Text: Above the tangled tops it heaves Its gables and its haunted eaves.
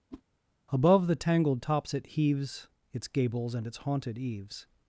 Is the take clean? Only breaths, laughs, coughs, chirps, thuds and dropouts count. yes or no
no